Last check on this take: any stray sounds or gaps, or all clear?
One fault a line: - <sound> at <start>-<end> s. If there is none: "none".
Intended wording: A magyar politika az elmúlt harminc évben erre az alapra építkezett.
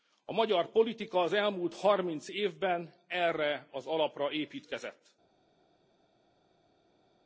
none